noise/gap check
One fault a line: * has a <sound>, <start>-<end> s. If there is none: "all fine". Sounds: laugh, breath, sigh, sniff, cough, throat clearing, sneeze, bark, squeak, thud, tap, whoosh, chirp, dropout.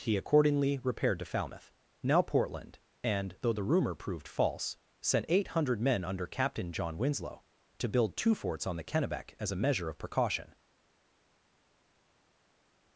all fine